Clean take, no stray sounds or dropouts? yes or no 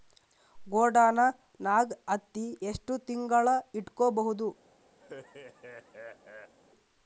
no